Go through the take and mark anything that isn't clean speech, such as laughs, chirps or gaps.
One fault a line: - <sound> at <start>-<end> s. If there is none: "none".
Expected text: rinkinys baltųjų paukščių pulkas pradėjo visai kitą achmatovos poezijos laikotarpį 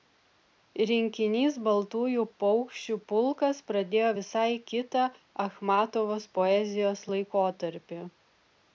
none